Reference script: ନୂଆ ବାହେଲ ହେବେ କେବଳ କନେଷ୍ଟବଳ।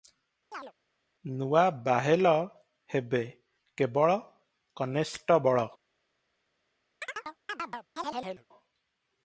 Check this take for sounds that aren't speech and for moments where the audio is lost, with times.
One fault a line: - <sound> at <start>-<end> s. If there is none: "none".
- chirp at 0.5-0.7 s
- chirp at 7.0-8.5 s